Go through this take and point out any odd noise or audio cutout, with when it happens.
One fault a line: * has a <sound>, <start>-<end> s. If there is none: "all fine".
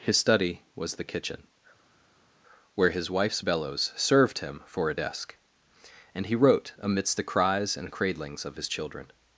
all fine